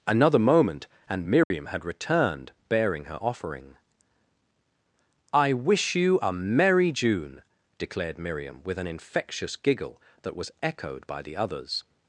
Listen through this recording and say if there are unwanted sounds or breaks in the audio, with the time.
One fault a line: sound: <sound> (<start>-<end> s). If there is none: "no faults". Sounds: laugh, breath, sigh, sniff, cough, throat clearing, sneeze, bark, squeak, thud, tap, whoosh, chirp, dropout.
sound: dropout (1.4-1.5 s)